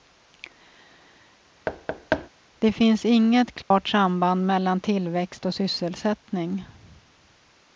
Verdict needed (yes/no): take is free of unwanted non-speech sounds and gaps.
no